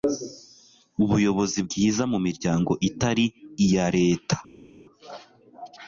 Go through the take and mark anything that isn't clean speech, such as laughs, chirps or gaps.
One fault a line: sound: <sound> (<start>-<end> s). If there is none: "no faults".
no faults